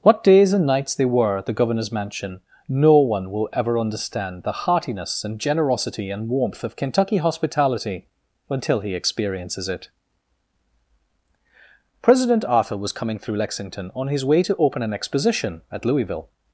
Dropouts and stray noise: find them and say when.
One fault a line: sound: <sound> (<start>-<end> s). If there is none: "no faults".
no faults